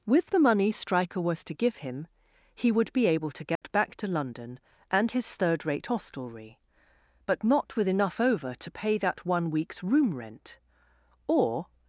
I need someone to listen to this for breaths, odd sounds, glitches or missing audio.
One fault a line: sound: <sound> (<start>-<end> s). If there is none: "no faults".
sound: dropout (3.6-3.6 s)